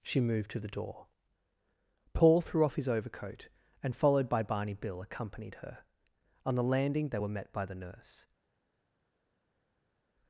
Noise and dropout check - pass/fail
pass